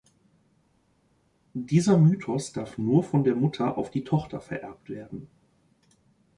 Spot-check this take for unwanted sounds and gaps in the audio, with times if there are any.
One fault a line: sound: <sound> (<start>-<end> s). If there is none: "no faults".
no faults